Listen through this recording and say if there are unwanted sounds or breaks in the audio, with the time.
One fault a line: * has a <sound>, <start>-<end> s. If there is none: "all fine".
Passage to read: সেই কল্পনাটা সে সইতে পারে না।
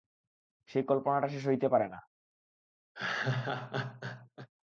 * has a laugh, 2.9-4.5 s